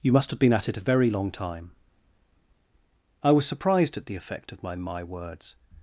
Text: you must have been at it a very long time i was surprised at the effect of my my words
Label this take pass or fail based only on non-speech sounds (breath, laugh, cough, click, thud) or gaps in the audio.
pass